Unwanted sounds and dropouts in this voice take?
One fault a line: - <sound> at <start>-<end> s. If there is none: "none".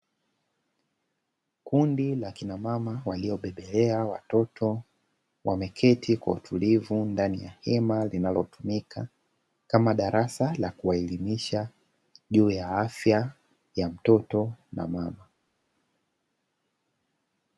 none